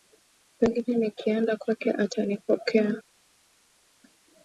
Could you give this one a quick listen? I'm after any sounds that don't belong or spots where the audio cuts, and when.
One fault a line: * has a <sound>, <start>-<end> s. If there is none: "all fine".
all fine